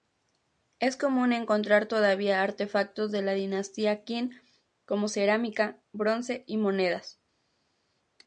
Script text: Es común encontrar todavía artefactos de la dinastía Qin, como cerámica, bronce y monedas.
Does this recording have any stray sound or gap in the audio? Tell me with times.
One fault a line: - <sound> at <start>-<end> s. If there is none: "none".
none